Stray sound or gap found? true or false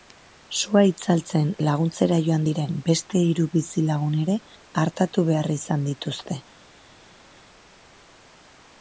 false